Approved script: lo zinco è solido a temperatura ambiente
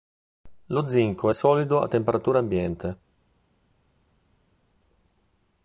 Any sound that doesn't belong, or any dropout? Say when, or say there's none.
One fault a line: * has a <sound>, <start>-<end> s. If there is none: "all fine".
all fine